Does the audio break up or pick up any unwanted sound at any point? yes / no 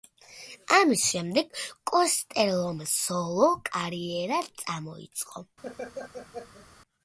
yes